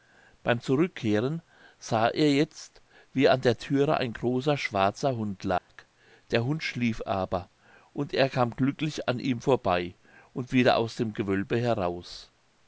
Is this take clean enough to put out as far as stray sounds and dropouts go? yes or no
no